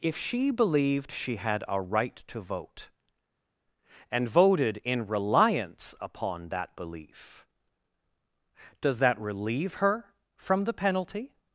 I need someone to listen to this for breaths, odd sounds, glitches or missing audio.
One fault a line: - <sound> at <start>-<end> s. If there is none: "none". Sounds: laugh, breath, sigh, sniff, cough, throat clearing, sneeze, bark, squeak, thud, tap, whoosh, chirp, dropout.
none